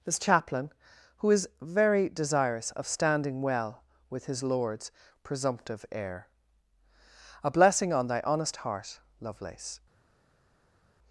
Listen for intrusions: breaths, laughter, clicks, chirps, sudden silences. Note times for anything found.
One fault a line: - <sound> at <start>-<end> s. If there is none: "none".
none